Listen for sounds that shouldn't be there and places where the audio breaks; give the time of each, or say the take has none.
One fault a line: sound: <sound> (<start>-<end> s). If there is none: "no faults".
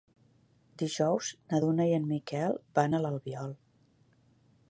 no faults